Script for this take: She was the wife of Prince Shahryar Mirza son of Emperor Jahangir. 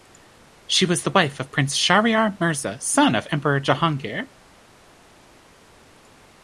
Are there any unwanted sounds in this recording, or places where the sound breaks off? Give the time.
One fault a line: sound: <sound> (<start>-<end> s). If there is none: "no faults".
no faults